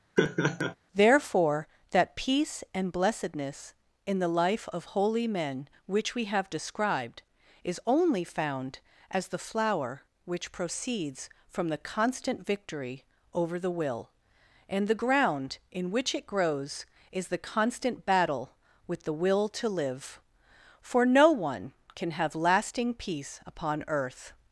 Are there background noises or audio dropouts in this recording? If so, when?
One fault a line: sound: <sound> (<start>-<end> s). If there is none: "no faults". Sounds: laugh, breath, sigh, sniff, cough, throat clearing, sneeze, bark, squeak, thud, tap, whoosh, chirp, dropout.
sound: laugh (0.2-0.8 s)